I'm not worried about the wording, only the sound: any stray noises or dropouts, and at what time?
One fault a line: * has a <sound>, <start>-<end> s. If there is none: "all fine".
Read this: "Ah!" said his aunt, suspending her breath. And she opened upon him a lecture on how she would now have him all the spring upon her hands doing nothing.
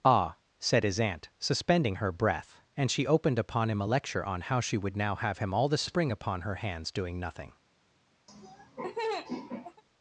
* has a laugh, 8.3-9.8 s